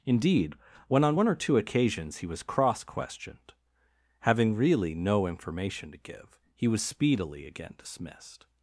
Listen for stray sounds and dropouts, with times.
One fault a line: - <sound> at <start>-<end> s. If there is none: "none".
none